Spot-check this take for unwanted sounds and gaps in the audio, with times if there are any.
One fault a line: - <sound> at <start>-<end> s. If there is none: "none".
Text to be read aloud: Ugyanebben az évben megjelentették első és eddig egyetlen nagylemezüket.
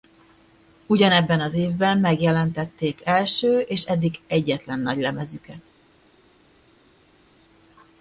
none